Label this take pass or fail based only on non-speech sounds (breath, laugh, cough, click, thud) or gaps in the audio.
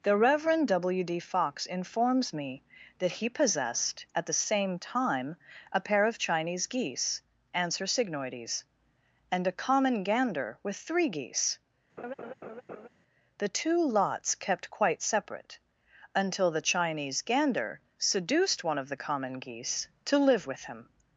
fail